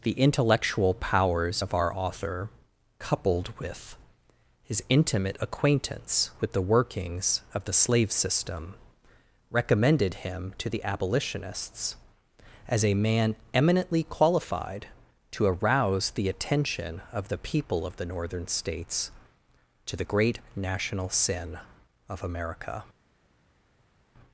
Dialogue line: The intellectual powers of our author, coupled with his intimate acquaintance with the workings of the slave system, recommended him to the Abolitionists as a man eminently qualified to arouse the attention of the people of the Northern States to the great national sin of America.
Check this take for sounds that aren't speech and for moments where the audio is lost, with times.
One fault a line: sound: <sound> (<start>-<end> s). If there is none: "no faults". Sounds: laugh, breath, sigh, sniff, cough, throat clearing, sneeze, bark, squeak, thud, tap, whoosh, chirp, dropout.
no faults